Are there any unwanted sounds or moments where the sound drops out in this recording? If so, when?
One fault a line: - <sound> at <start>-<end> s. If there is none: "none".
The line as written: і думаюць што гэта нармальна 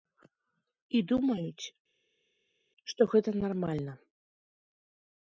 none